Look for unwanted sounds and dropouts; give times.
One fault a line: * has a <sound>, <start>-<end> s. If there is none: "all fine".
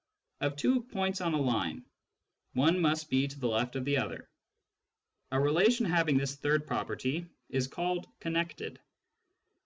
all fine